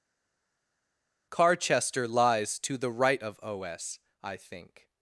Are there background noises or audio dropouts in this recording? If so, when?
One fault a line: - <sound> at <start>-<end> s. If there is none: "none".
none